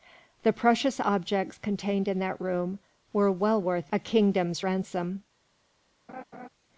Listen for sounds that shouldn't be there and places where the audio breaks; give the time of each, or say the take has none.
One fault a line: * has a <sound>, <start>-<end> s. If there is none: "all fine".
* has a laugh, 6.1-6.5 s